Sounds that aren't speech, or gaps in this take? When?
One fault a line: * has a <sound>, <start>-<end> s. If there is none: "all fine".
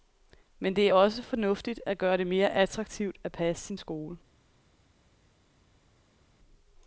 all fine